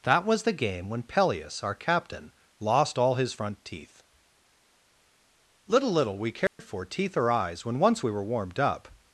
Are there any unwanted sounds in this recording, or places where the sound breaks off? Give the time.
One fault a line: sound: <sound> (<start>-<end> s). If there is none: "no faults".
sound: dropout (6.5-6.6 s)